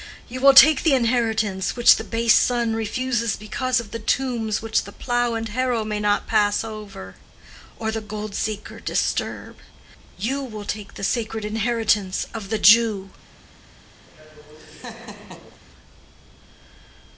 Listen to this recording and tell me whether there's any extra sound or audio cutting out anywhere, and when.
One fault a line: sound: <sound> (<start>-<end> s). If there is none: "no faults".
sound: laugh (14.0-15.6 s)